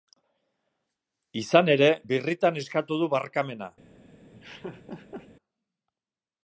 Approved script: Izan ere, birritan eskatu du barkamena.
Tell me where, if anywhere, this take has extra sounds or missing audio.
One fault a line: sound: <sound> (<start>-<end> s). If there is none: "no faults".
sound: laugh (4.3-5.3 s)